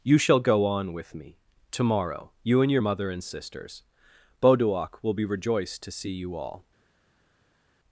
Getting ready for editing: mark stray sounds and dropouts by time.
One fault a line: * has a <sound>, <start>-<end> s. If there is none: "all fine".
all fine